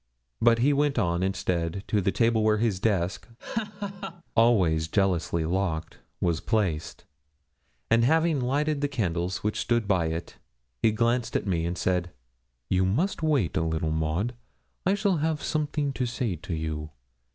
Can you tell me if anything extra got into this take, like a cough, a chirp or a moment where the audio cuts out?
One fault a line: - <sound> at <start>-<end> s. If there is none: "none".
- laugh at 3.4-4.2 s